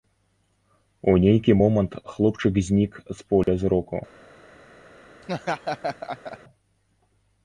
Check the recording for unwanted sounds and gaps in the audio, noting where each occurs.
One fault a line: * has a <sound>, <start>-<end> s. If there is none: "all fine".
* has a dropout, 3.4-3.5 s
* has a laugh, 5.2-6.4 s